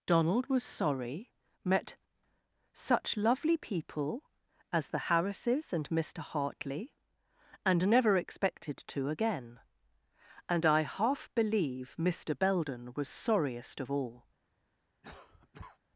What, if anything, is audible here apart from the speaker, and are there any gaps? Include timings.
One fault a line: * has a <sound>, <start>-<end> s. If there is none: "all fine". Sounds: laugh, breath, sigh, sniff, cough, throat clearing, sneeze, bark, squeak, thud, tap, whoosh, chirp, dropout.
* has a cough, 15.0-15.8 s